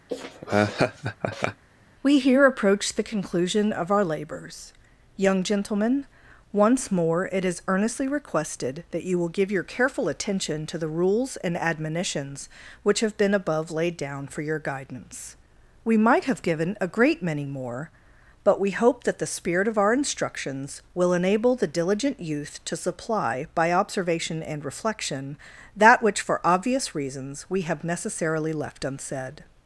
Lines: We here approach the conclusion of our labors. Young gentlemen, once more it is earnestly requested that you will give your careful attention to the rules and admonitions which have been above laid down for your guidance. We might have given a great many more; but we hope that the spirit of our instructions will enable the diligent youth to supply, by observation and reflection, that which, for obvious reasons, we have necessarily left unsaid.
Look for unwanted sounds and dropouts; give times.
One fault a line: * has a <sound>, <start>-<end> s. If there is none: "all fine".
* has a laugh, 0.1-1.6 s